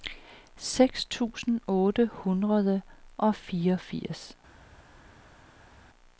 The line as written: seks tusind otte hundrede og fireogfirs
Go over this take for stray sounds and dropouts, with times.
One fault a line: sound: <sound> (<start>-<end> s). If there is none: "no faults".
no faults